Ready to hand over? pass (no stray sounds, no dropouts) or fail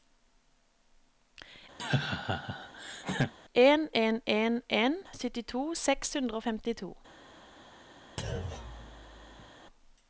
fail